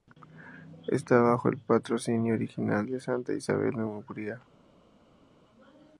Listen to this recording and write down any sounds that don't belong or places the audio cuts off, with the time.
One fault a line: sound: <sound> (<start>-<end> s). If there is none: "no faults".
no faults